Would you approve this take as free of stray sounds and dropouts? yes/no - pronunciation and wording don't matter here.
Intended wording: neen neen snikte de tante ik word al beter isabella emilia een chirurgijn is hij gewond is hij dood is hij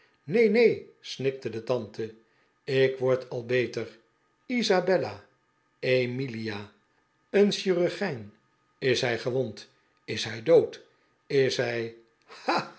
yes